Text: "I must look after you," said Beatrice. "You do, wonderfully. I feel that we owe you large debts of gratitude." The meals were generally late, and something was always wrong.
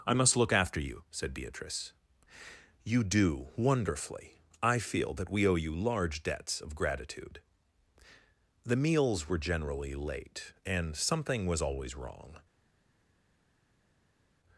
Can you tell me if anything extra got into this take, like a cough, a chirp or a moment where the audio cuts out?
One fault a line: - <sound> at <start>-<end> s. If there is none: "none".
none